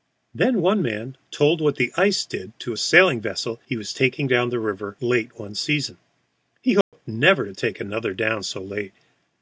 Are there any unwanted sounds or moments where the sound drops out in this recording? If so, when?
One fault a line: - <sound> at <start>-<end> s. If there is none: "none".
- dropout at 6.8-6.9 s